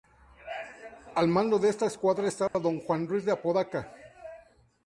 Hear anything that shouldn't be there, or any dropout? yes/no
yes